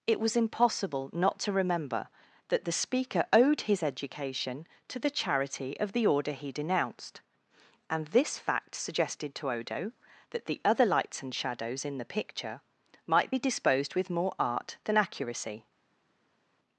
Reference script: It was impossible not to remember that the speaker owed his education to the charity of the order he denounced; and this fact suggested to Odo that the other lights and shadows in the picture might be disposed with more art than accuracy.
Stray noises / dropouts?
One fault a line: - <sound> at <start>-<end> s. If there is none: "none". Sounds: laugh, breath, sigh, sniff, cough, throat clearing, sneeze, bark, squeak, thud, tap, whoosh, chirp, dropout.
none